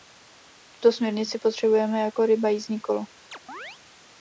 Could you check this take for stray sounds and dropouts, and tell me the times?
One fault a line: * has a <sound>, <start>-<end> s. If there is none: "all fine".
* has a chirp, 3.3-3.8 s